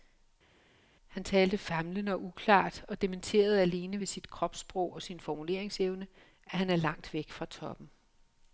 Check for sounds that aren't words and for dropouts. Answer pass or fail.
pass